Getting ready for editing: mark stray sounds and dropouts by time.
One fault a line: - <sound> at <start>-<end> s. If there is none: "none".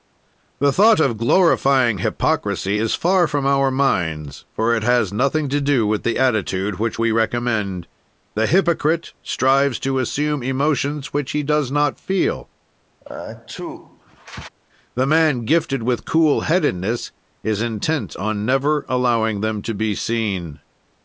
- sneeze at 13.0-14.5 s